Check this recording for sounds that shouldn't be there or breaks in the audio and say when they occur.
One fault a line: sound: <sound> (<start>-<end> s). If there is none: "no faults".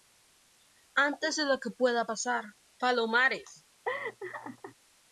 sound: laugh (3.9-4.8 s)